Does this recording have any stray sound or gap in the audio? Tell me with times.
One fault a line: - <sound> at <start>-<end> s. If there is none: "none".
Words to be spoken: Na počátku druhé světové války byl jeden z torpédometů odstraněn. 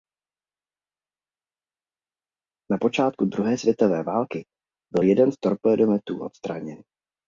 none